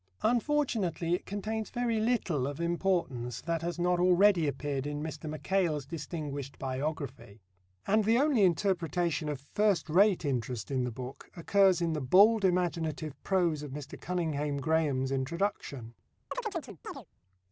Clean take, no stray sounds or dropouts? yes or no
no